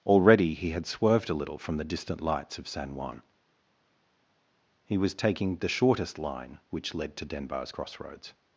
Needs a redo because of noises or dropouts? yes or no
no